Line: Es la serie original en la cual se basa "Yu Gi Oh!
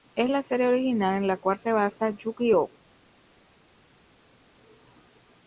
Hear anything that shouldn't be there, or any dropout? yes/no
no